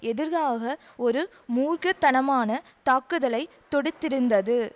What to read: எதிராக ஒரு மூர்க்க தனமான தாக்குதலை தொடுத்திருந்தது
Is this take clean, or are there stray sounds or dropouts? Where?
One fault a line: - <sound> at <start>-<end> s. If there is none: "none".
none